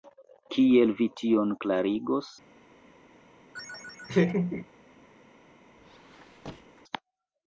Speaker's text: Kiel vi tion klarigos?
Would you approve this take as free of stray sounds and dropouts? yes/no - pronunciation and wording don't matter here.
no